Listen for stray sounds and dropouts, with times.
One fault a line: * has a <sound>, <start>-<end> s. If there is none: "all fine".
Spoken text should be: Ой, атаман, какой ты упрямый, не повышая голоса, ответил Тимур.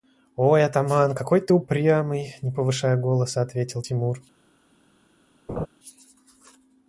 * has a laugh, 5.5-5.7 s